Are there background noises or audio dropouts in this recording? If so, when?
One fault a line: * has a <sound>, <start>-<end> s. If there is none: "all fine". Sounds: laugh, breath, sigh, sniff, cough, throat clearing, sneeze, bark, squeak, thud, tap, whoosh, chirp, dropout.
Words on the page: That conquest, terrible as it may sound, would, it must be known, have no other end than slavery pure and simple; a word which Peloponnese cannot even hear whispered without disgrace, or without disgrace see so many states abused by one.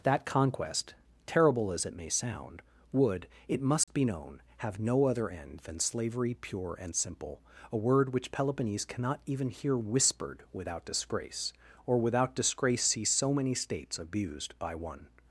* has a dropout, 3.8-3.9 s